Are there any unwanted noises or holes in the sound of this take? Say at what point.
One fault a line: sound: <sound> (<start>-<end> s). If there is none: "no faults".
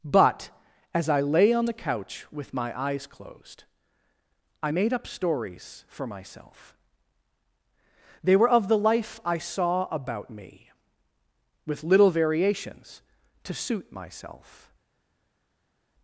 no faults